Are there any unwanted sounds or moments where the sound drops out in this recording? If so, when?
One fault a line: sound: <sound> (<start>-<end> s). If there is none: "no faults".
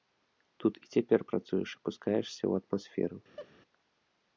sound: laugh (3.4-3.5 s)